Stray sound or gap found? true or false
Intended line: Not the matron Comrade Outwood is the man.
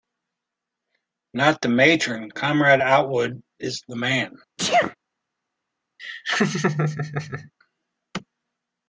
true